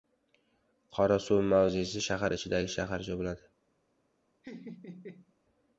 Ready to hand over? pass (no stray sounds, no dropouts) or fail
fail